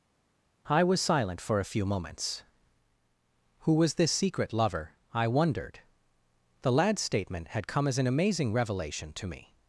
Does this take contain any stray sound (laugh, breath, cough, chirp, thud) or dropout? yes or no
no